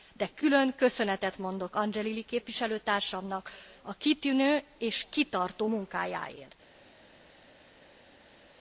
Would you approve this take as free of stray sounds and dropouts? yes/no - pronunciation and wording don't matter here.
yes